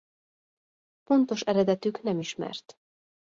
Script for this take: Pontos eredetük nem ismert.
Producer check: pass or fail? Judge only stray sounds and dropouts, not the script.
pass